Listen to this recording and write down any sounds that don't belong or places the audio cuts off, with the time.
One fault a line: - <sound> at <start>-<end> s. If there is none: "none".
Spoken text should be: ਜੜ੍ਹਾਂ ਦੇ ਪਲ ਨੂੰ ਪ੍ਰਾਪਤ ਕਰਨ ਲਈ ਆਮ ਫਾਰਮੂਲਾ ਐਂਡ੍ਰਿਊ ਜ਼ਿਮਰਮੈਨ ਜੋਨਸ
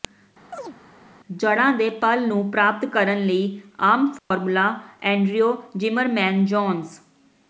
- chirp at 0.5-0.8 s
- dropout at 4.2-4.3 s